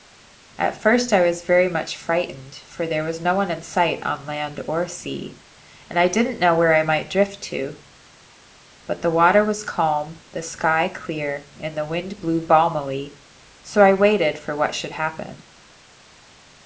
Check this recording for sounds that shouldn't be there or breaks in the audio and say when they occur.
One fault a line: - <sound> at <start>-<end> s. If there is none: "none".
none